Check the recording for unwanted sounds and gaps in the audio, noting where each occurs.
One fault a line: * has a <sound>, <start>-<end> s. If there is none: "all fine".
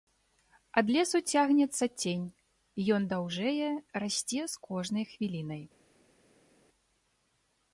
all fine